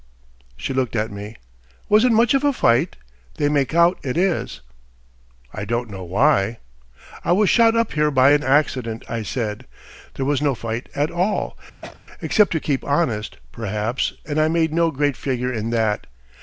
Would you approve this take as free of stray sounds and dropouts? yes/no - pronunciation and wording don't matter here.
no